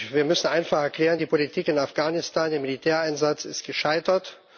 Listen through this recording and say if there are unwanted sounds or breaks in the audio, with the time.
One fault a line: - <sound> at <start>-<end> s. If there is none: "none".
none